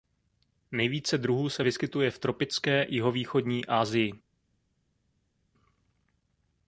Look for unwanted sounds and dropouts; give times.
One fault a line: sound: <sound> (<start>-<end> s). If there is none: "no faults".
no faults